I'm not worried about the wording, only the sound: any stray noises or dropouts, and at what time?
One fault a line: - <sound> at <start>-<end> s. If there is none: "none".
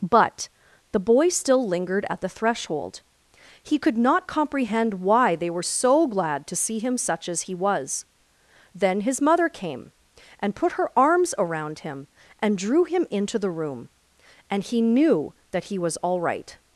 none